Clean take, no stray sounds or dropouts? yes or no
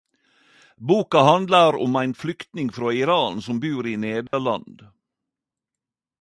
no